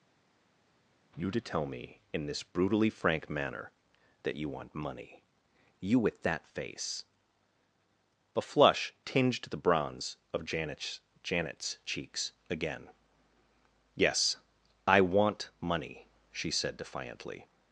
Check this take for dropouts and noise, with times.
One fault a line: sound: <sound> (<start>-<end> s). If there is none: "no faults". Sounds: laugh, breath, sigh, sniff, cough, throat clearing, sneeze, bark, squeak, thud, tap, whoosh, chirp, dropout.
no faults